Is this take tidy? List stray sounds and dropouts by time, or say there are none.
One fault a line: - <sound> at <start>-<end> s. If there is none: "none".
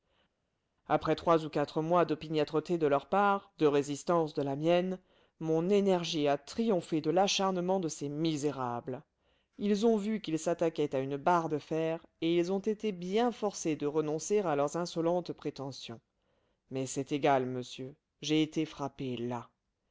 none